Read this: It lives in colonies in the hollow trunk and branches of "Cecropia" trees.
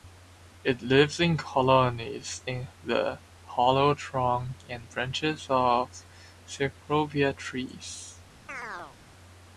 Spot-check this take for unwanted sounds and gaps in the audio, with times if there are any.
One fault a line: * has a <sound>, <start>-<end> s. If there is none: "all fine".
* has a chirp, 8.5-9.0 s